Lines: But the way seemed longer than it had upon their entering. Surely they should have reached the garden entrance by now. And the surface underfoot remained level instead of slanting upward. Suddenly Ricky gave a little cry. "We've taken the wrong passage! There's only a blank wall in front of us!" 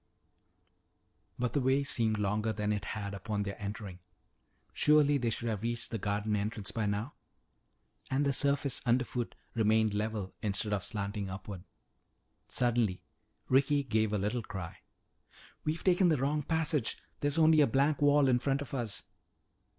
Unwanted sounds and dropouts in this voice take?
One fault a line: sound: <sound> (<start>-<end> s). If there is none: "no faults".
no faults